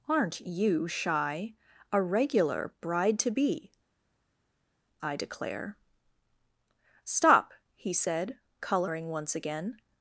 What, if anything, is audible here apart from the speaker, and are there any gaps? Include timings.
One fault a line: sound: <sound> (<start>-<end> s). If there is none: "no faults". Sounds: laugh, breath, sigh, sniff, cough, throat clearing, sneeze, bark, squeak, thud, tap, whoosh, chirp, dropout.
no faults